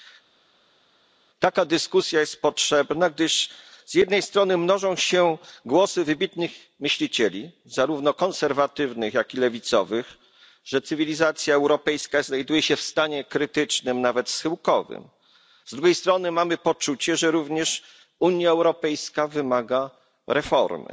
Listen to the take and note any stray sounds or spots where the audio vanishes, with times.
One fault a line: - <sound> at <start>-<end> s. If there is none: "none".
none